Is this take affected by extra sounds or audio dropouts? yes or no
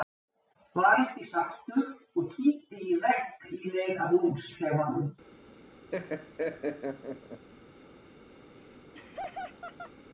yes